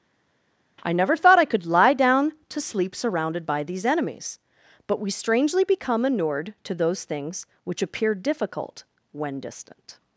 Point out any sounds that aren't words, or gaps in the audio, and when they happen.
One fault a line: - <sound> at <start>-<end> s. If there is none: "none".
none